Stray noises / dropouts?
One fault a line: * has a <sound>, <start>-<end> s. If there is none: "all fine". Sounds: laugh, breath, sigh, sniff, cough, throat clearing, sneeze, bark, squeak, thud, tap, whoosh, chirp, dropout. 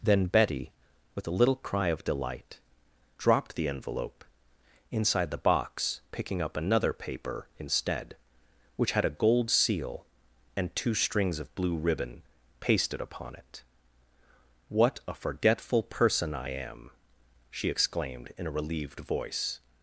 all fine